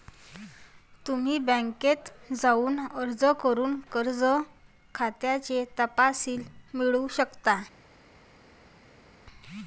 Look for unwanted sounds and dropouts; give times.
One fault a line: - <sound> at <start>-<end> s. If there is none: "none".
none